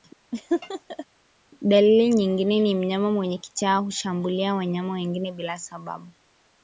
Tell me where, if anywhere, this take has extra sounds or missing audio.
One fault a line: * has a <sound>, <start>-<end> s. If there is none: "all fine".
* has a laugh, 0.3-1.1 s